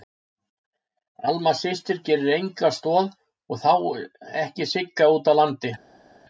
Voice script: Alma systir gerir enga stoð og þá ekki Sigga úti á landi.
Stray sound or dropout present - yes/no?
no